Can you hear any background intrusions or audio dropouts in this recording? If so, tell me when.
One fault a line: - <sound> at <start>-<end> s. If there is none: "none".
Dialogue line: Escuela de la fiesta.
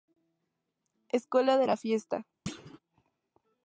- thud at 2.5-2.8 s